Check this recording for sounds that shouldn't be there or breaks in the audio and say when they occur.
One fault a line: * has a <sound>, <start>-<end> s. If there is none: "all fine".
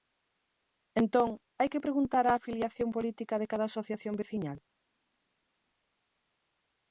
all fine